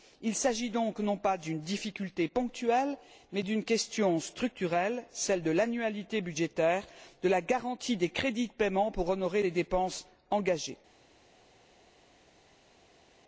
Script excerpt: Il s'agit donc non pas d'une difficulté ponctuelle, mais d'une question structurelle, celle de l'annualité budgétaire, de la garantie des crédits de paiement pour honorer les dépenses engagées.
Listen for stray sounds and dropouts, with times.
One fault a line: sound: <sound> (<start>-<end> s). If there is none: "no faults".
no faults